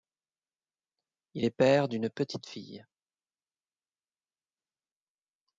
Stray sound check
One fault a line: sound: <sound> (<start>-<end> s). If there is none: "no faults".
no faults